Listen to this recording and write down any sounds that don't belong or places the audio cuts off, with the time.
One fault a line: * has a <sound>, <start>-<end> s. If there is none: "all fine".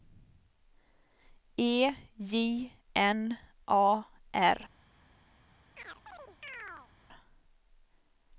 * has a chirp, 5.8-6.9 s